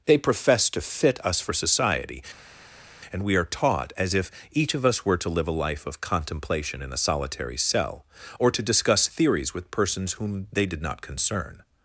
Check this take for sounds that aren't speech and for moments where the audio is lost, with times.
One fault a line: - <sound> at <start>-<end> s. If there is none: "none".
none